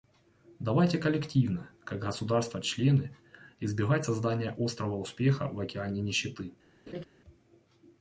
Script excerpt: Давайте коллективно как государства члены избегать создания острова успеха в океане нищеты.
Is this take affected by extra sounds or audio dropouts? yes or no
yes